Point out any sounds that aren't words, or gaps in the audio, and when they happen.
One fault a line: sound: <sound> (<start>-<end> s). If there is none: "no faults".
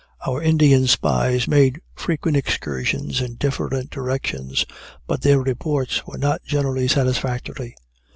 no faults